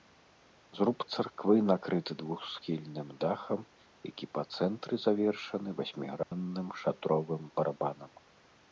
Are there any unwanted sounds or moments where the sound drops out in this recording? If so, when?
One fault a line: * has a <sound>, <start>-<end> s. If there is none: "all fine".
* has a dropout, 6.2-6.3 s